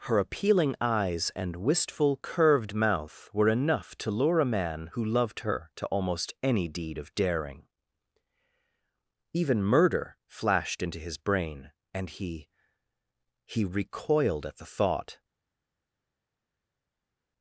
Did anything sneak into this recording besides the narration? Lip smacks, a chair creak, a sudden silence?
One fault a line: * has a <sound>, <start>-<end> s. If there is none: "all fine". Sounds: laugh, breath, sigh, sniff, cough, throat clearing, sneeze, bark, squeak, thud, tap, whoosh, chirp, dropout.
all fine